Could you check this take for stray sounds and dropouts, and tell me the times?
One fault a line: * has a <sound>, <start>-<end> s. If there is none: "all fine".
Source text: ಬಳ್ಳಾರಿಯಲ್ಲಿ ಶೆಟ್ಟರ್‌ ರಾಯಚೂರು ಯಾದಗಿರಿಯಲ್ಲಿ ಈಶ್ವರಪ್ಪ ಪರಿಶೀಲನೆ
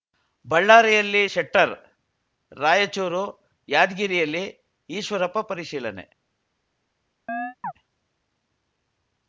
* has a chirp, 7.3-7.7 s